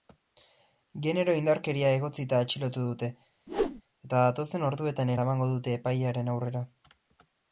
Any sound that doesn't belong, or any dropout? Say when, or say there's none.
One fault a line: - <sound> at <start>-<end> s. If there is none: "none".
- whoosh at 3.5-3.8 s